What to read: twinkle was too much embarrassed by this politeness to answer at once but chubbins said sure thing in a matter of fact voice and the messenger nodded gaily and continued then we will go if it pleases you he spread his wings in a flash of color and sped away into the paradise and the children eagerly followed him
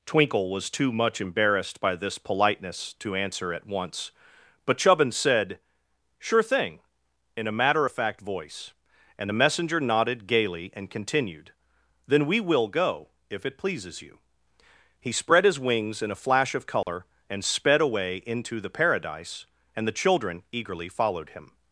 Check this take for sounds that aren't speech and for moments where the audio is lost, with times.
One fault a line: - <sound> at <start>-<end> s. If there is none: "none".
- dropout at 16.8-16.9 s